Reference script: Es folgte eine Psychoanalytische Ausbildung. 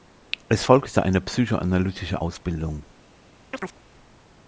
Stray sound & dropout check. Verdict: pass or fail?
fail